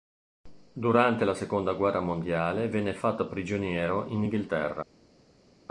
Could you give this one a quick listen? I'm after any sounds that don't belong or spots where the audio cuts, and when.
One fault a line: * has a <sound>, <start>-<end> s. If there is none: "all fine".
all fine